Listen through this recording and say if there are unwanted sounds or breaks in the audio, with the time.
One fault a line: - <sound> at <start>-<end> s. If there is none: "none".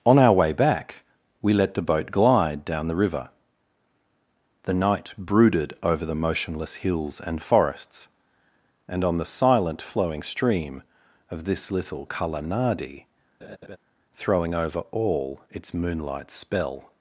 - laugh at 13.4-13.8 s